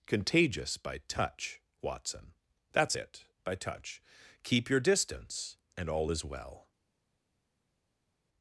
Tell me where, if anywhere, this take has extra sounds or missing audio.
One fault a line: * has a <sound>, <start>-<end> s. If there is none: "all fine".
all fine